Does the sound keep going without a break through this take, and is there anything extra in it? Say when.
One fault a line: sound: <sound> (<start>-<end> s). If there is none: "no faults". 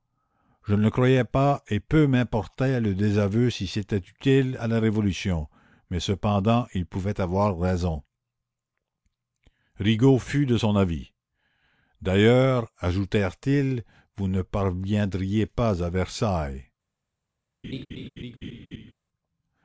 sound: laugh (17.6-18.9 s)